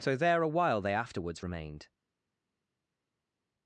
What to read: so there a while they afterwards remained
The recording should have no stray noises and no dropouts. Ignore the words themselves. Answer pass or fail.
pass